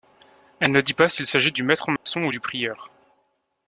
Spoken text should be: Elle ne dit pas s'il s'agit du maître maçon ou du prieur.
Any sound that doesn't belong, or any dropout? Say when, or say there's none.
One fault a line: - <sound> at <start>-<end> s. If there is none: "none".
- dropout at 2.0-2.1 s